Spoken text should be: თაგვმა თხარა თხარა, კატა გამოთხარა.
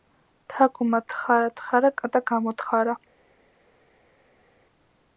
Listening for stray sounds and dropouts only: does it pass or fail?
pass